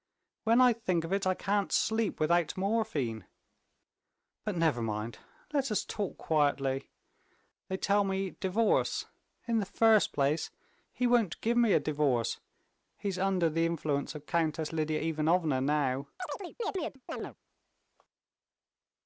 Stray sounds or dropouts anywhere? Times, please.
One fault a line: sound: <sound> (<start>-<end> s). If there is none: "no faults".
sound: chirp (16.2-17.4 s)